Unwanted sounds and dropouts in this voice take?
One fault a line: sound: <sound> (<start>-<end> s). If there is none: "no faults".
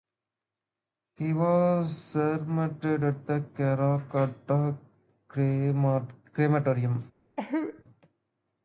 sound: cough (7.4-7.8 s)